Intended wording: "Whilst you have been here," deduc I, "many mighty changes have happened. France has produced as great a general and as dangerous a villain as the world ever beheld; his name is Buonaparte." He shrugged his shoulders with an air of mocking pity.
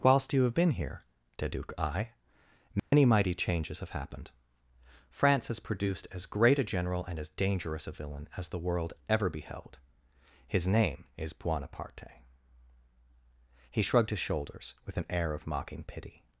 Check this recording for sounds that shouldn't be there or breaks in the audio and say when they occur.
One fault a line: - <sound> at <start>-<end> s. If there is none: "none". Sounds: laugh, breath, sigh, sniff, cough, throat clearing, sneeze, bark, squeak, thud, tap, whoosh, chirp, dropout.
- dropout at 2.8-2.9 s